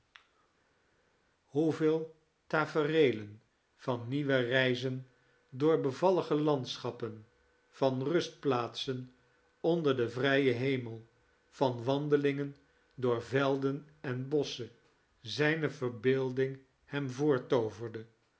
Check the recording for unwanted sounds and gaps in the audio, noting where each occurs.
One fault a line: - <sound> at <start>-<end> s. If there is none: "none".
none